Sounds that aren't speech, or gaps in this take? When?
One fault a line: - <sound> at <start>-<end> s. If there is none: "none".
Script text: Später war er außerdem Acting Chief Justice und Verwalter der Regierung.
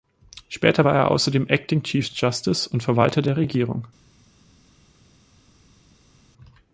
none